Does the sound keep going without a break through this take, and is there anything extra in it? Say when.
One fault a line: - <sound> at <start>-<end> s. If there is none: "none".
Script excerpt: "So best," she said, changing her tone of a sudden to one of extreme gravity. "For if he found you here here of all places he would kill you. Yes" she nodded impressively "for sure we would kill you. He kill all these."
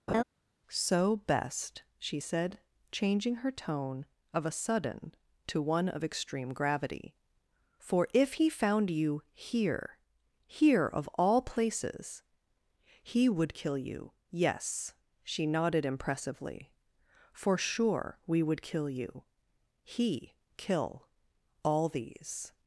- laugh at 0.1-0.2 s